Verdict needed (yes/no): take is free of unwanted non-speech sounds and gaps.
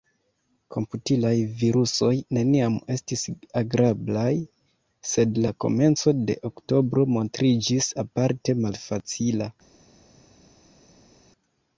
yes